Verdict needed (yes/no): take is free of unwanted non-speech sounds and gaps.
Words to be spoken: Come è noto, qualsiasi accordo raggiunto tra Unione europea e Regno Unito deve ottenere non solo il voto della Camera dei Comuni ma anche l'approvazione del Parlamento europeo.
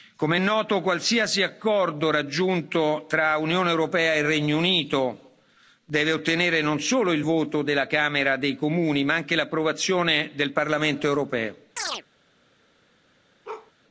no